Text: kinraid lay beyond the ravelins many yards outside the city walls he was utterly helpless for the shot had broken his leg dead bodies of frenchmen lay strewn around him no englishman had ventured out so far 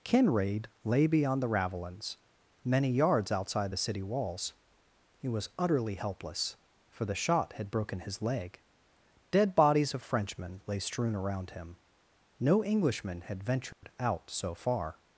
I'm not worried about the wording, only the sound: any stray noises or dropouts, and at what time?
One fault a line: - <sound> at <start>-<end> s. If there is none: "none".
- dropout at 13.7-13.8 s